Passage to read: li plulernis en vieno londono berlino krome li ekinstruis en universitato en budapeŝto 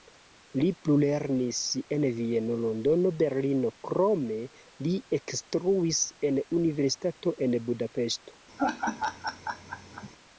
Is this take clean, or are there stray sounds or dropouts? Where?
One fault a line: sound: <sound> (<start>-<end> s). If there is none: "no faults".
sound: laugh (8.6-10.1 s)